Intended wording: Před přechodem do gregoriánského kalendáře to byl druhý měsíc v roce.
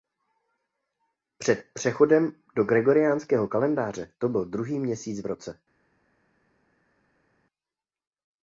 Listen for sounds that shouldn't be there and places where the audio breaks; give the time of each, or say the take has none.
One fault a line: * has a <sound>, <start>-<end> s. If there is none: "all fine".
all fine